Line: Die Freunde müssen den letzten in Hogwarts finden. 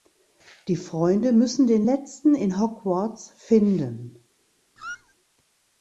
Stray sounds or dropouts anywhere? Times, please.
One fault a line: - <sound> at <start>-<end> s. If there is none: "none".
- squeak at 4.8-5.1 s